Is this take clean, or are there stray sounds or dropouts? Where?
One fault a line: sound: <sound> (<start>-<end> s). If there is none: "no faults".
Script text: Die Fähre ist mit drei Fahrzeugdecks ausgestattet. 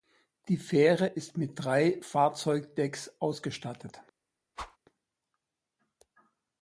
sound: whoosh (4.6-4.8 s)